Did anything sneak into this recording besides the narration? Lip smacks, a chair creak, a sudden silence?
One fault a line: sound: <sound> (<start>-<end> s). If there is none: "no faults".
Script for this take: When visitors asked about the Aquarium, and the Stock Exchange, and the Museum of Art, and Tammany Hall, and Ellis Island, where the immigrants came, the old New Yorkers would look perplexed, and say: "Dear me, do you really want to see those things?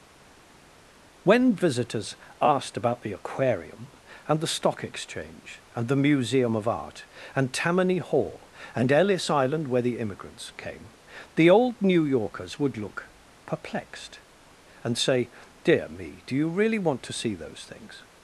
no faults